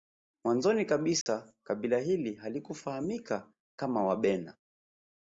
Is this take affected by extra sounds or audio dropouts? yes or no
yes